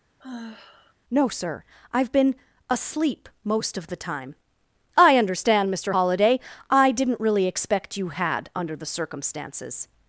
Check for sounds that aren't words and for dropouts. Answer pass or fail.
fail